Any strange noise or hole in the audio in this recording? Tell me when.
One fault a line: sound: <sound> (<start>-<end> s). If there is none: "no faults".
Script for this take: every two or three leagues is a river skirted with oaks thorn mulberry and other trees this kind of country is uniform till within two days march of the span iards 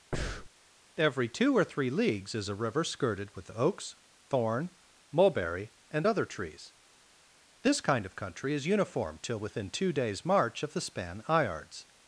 sound: breath (0.1-0.5 s)